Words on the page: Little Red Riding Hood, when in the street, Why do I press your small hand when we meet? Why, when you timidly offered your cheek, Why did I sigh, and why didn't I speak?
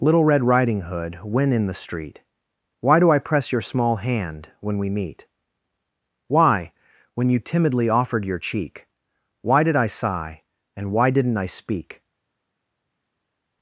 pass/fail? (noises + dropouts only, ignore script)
pass